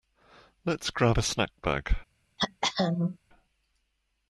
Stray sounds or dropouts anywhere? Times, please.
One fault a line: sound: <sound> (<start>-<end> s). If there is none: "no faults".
sound: throat clearing (2.4-3.2 s)